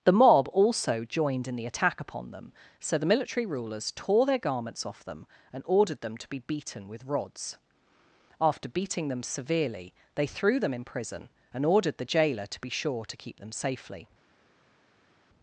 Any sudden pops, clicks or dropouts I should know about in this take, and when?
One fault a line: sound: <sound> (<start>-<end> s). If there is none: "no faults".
no faults